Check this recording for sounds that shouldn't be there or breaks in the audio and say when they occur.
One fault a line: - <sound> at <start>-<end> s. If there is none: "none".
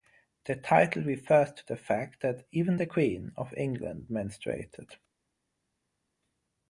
none